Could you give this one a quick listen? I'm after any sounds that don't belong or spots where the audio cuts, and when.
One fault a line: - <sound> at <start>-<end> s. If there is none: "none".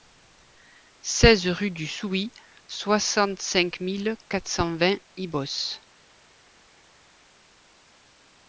none